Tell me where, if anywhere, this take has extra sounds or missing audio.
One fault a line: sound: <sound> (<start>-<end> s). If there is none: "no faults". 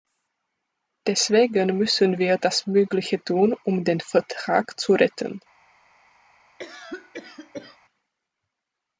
sound: cough (6.6-7.8 s)